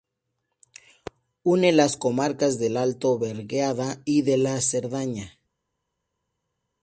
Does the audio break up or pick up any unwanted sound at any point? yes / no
no